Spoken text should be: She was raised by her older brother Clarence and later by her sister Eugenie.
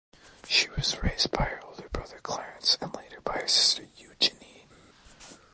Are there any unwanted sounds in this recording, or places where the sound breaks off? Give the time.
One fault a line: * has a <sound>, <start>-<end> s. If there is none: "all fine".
all fine